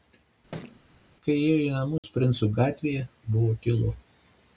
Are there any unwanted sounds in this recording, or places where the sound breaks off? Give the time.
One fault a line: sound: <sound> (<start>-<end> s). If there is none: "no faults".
sound: thud (0.5-0.8 s)
sound: dropout (2.0-2.0 s)